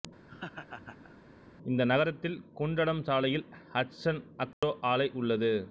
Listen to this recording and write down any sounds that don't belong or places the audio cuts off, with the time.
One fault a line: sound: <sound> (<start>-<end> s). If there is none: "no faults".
sound: laugh (0.3-1.2 s)
sound: dropout (4.5-4.6 s)